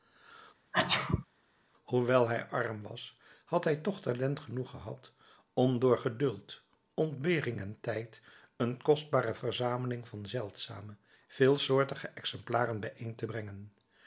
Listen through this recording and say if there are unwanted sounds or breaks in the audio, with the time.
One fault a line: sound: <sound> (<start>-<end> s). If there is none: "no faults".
sound: sneeze (0.7-1.3 s)